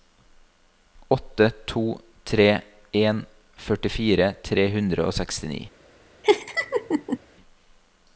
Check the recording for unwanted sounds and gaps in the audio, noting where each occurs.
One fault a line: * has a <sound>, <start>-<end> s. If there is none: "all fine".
* has a laugh, 6.2-7.2 s